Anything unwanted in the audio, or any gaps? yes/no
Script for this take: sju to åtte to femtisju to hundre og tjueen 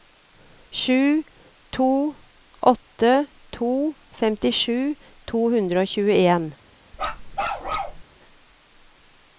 yes